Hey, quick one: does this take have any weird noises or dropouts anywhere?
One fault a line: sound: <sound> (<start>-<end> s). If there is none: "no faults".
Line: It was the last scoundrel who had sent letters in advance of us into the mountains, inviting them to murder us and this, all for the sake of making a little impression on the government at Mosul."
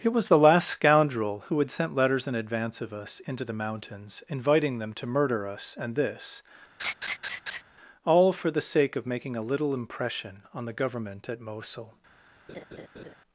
sound: laugh (6.8-7.6 s)
sound: laugh (12.5-13.1 s)